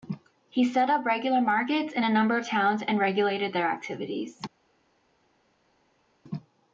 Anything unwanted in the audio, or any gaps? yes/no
no